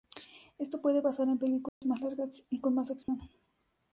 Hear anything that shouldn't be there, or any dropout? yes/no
yes